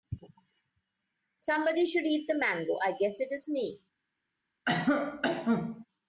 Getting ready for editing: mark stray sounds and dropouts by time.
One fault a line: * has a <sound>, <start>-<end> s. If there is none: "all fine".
* has a cough, 4.7-5.9 s